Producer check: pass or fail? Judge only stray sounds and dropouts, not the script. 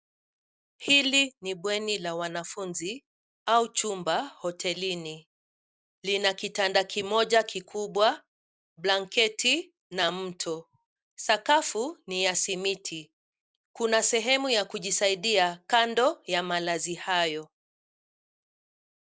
pass